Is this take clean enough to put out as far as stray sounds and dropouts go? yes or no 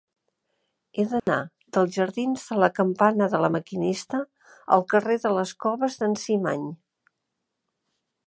no